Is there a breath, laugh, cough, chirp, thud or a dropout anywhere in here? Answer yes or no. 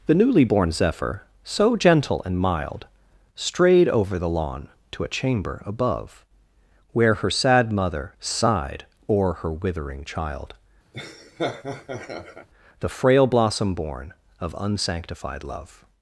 yes